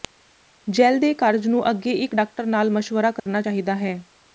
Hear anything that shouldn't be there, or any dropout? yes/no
yes